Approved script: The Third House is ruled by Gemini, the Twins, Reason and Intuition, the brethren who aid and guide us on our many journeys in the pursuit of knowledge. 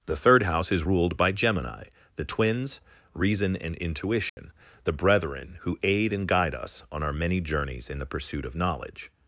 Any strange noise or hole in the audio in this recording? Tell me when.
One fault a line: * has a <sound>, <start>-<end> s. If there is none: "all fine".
* has a dropout, 4.3-4.4 s